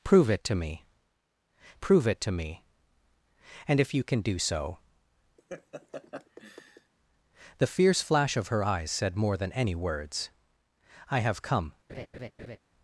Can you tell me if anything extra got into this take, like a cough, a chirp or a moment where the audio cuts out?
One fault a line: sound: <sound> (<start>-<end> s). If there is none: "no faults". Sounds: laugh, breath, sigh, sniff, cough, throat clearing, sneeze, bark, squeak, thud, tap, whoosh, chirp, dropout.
sound: laugh (5.4-6.9 s)
sound: laugh (11.9-12.6 s)